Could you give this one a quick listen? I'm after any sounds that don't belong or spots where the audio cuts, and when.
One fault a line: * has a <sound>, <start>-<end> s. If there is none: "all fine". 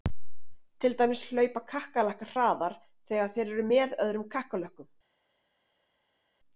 all fine